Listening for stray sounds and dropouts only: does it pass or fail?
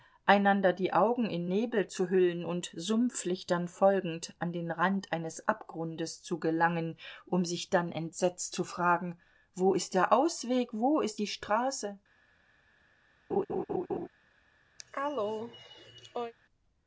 fail